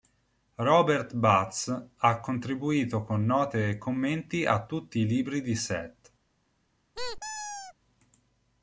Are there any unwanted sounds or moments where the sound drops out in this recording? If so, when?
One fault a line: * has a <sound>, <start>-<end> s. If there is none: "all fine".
* has a squeak, 6.9-7.7 s